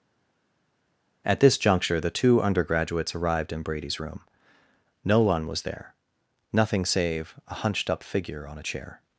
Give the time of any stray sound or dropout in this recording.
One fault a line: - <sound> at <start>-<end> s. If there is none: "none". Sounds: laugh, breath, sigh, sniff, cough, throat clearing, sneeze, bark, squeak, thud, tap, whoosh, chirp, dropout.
none